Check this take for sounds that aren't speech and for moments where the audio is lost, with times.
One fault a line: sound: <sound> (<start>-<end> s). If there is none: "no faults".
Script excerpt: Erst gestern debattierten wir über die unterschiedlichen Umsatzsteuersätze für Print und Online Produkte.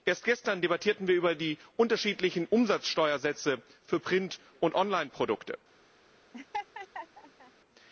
sound: laugh (6.3-7.5 s)